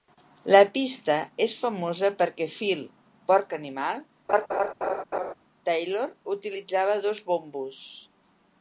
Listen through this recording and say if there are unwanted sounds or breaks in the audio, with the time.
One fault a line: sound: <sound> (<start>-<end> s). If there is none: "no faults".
sound: laugh (4.3-5.3 s)